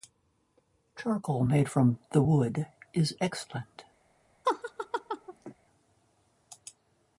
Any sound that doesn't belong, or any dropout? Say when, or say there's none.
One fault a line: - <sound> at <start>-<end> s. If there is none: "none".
- laugh at 4.4-5.5 s